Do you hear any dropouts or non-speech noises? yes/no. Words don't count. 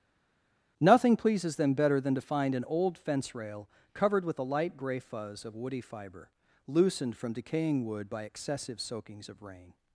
no